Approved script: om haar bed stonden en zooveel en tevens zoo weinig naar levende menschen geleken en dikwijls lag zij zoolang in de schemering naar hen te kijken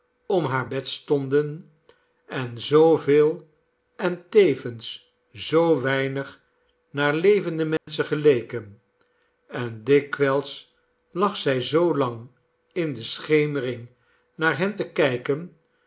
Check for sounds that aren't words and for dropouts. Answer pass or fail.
fail